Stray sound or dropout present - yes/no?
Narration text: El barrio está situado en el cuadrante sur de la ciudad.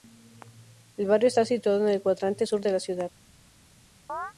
yes